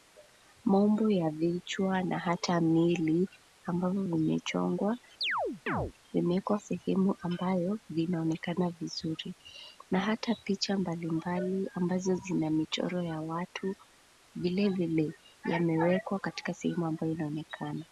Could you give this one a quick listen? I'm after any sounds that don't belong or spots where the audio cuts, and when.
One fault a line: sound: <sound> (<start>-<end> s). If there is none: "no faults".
sound: chirp (5.2-5.9 s)